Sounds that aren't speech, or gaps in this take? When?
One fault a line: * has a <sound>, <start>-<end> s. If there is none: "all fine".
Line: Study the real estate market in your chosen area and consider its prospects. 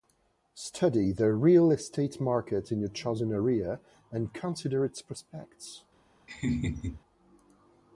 * has a laugh, 6.3-7.0 s